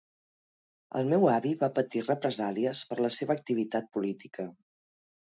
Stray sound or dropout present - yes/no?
no